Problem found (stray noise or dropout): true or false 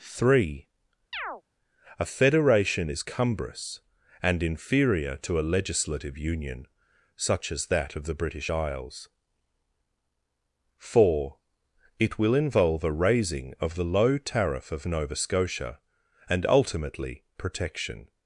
true